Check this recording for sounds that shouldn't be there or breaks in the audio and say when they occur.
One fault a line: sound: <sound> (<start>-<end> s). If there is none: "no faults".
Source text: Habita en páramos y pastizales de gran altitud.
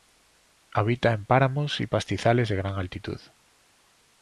no faults